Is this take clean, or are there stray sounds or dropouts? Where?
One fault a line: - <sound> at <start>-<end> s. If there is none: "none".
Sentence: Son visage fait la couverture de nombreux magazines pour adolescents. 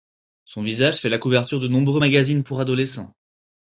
none